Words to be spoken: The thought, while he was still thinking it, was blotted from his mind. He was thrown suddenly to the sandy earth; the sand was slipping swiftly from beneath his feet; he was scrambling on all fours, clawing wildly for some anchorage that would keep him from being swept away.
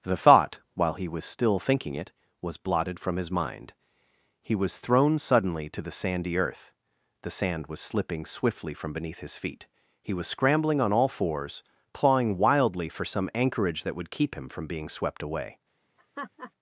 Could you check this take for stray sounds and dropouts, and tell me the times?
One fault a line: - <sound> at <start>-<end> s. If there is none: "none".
- laugh at 16.0-16.5 s